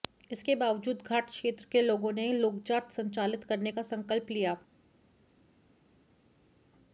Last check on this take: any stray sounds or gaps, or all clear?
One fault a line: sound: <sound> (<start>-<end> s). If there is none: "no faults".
no faults